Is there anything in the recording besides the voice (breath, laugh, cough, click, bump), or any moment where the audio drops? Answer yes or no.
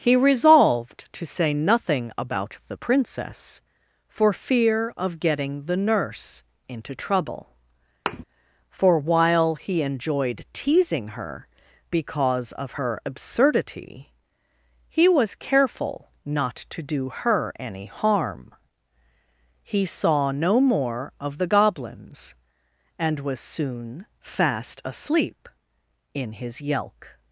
yes